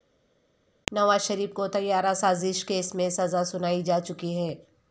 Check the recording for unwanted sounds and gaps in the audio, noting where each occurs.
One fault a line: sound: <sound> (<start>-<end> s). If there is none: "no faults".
no faults